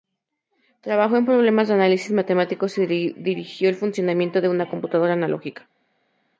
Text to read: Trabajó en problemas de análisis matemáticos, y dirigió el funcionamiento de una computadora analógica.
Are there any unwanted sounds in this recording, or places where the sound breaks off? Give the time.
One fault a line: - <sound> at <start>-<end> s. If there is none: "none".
none